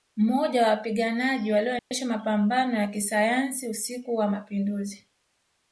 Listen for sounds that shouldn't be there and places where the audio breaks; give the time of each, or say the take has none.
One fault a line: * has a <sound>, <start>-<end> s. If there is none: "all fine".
* has a dropout, 1.8-1.9 s